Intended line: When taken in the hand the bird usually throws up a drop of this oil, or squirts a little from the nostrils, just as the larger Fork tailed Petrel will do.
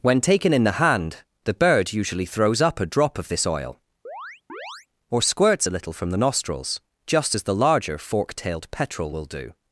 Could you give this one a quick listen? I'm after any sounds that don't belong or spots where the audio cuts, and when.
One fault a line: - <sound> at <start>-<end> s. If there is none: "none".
- chirp at 4.0-4.9 s